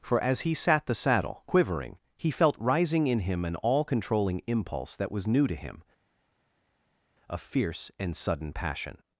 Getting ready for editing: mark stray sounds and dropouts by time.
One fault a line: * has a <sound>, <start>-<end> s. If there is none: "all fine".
all fine